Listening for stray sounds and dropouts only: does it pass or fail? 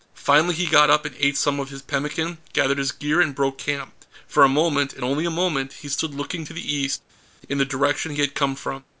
pass